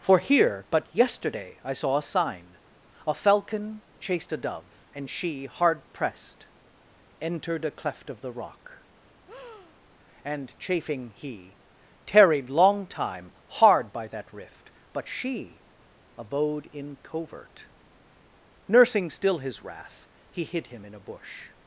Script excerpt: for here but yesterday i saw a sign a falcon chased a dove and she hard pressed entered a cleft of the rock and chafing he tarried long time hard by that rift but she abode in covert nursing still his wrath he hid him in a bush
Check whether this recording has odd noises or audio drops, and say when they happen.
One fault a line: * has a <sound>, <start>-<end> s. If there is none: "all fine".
* has a breath, 9.3-9.8 s